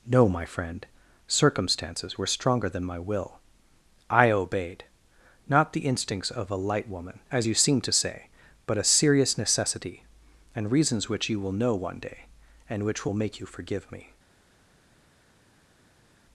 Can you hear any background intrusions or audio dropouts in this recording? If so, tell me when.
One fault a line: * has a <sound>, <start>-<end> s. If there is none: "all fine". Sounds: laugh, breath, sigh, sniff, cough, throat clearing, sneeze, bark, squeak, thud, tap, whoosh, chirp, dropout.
all fine